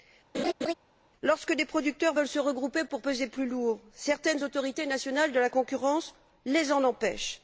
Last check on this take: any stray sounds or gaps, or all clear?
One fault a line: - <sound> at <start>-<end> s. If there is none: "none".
- laugh at 0.3-0.7 s